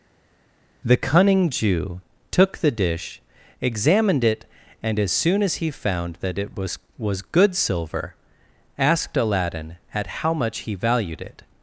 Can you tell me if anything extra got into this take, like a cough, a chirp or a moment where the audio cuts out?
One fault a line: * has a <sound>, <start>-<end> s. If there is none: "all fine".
all fine